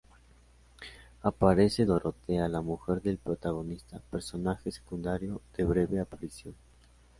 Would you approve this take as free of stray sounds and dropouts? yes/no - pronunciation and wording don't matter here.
yes